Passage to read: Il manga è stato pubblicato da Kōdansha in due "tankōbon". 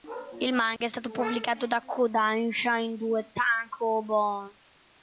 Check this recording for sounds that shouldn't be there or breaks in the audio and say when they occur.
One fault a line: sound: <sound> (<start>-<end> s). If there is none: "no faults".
sound: dropout (0.8-0.8 s)